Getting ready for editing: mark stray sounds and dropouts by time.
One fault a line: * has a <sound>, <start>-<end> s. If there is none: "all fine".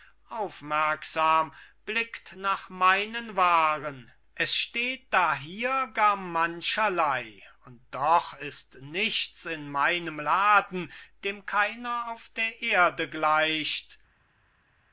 all fine